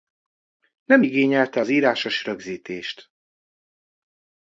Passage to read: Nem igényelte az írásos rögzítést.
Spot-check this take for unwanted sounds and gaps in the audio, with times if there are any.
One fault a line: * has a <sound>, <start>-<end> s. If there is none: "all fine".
all fine